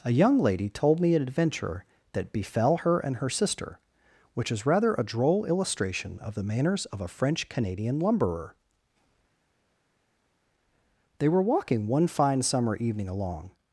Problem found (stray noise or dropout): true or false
false